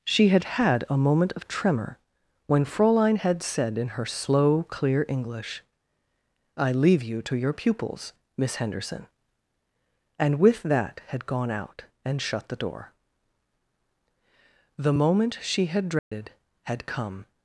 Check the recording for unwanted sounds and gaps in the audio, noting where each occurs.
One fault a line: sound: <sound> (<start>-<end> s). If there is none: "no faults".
sound: dropout (16.0-16.1 s)